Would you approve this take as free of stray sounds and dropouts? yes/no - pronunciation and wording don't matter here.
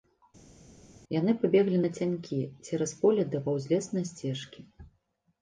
yes